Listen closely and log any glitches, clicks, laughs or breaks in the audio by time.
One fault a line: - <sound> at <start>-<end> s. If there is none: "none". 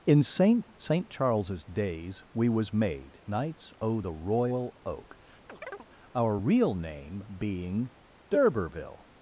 - chirp at 5.5-5.9 s